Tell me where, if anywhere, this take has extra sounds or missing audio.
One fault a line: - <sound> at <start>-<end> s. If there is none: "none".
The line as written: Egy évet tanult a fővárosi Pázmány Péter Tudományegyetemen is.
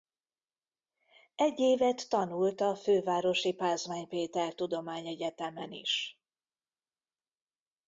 none